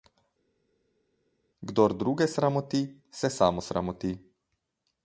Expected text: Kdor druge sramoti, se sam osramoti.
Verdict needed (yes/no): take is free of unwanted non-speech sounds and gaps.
yes